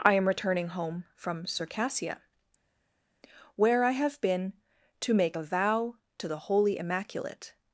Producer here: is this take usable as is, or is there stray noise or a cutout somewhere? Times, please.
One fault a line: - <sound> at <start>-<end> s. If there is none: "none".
none